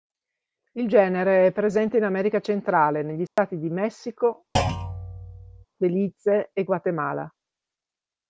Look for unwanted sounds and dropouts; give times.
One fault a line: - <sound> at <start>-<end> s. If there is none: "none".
- dropout at 3.3-3.4 s
- thud at 4.6-5.7 s